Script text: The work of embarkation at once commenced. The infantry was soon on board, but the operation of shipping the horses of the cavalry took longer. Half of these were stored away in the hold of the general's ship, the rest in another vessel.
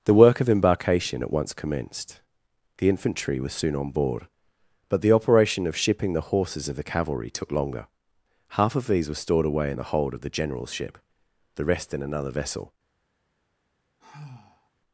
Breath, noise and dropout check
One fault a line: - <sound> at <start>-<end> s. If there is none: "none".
- sigh at 14.0-14.7 s